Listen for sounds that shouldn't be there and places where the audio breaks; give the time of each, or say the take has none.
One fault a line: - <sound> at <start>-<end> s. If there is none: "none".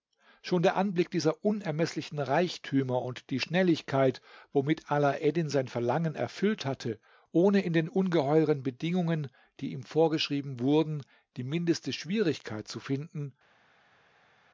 none